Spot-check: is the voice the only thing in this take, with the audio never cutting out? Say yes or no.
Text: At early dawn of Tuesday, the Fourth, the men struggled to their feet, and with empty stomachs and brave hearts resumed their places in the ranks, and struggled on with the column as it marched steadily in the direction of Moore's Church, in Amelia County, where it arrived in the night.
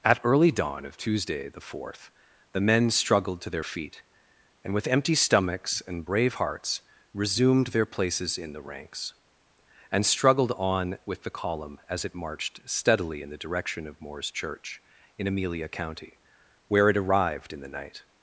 yes